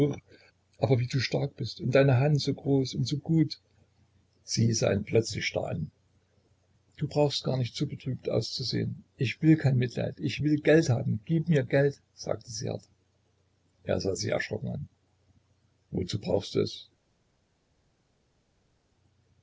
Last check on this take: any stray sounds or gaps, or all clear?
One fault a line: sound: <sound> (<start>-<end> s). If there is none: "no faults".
no faults